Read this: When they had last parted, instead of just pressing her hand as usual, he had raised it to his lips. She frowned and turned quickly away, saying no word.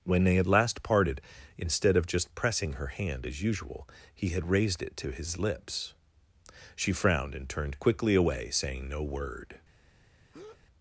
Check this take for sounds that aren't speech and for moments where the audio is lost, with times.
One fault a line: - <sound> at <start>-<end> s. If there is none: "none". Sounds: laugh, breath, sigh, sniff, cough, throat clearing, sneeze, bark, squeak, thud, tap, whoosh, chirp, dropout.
- breath at 10.3-10.6 s